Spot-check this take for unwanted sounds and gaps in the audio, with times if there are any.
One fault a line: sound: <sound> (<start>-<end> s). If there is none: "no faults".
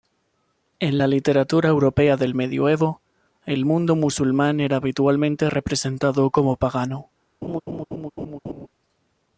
sound: laugh (7.4-8.7 s)